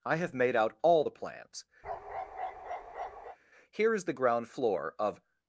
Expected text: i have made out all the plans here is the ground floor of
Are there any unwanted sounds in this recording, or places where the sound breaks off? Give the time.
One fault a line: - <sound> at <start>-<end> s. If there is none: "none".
- bark at 1.8-3.4 s